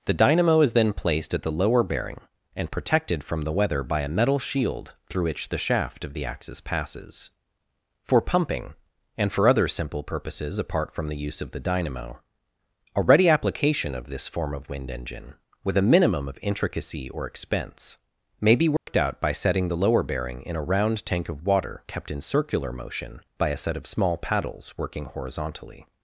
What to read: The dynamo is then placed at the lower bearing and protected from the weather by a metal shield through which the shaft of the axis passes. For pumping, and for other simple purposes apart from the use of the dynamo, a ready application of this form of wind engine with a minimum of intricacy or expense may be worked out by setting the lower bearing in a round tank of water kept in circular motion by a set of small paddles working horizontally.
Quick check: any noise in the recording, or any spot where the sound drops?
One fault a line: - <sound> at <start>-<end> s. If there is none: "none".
- dropout at 18.8-18.9 s